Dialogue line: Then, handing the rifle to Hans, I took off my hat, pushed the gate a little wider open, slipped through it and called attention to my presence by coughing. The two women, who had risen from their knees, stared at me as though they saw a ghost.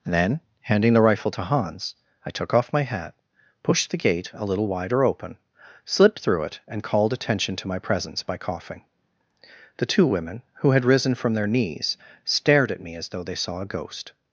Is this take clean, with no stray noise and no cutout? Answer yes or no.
yes